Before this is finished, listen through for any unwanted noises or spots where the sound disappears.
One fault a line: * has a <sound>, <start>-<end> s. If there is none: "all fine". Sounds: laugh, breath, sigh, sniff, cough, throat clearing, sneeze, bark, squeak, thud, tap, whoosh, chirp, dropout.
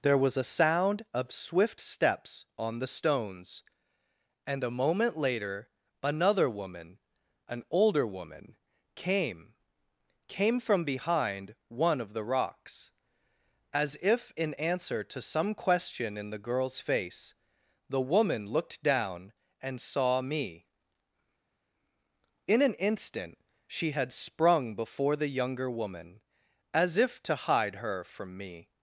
all fine